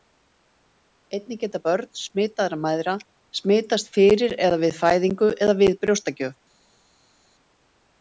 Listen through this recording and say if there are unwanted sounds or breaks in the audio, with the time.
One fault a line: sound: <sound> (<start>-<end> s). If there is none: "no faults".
no faults